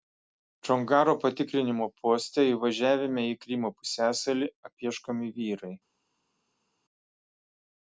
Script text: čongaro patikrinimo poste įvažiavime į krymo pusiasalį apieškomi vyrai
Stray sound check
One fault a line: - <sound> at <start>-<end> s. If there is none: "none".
none